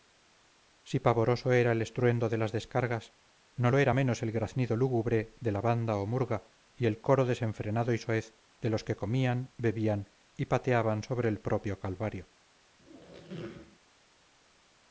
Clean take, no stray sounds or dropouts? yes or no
no